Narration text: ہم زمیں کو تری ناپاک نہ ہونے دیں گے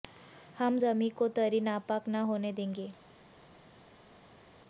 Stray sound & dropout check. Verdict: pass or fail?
pass